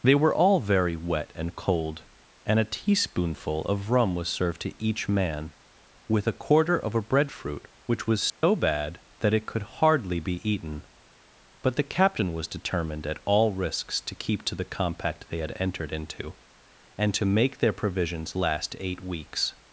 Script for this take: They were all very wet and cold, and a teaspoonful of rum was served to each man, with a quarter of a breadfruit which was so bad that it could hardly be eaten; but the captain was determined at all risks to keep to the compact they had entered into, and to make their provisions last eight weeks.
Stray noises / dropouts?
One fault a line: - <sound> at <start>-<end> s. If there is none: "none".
- dropout at 8.3-8.4 s